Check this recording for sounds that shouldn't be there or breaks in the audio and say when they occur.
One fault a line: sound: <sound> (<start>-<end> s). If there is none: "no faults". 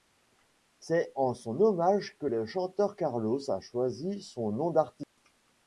sound: dropout (5.0-5.2 s)